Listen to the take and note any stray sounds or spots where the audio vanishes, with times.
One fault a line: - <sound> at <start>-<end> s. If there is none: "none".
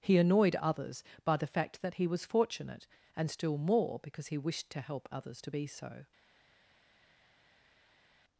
none